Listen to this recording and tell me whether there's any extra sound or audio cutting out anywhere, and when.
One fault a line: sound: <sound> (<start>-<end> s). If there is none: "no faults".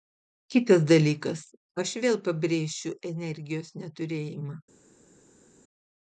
no faults